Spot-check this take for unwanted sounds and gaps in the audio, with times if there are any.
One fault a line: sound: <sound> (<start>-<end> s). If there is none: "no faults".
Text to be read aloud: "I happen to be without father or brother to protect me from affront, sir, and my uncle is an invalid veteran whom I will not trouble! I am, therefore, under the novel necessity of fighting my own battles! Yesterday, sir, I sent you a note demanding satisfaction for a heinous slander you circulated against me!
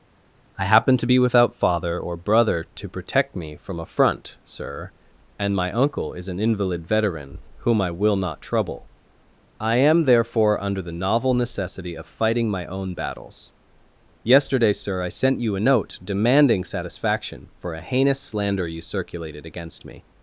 no faults